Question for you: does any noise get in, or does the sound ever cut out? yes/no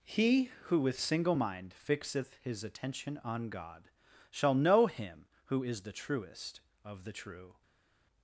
no